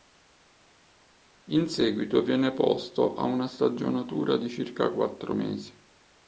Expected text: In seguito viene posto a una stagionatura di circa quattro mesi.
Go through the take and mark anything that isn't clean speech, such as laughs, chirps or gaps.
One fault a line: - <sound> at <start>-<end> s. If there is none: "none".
none